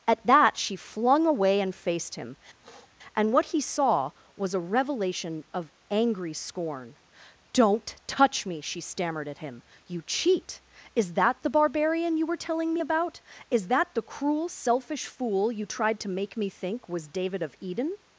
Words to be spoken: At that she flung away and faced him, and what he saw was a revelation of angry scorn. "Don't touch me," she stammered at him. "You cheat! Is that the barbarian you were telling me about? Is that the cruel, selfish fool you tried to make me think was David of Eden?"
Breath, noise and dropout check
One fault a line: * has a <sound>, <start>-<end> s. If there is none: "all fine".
* has a sniff, 2.6-2.9 s